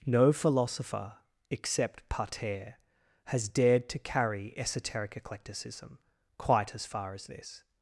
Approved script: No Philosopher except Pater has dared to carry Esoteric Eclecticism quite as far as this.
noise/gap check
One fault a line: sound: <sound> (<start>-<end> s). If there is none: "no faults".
no faults